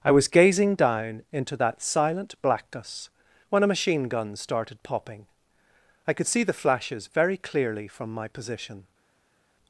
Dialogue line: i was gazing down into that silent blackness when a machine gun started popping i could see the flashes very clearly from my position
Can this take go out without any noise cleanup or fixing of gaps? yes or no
yes